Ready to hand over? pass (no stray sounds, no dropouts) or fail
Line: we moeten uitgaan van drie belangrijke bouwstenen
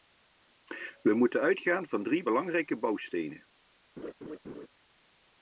fail